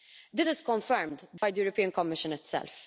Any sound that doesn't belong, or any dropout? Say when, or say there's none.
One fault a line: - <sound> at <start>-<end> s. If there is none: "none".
- dropout at 1.4-1.4 s